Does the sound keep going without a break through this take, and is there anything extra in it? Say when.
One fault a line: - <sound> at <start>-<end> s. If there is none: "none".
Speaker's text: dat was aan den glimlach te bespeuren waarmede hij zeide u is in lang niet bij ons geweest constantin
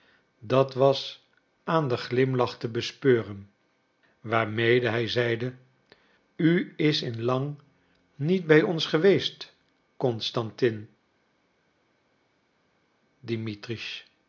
none